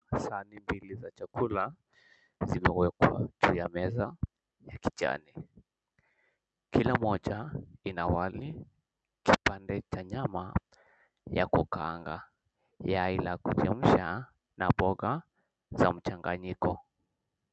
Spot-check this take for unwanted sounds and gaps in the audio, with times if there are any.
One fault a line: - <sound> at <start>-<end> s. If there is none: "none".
none